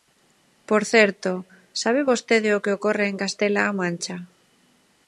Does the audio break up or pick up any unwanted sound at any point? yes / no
no